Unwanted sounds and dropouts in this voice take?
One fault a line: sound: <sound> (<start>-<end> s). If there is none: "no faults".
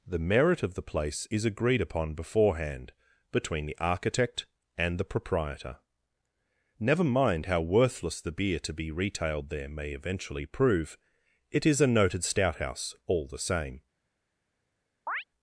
sound: chirp (15.1-15.2 s)